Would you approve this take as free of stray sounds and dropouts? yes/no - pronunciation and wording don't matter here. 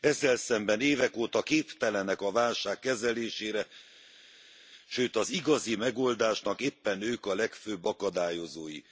yes